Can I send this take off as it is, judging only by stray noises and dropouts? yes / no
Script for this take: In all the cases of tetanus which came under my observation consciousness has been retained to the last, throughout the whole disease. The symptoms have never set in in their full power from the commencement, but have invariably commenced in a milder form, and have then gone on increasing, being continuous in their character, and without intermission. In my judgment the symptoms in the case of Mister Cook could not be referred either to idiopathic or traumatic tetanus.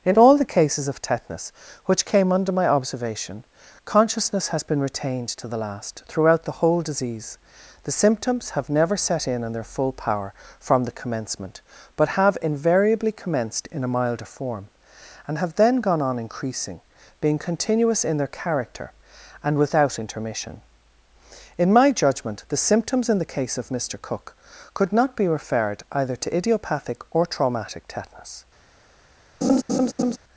no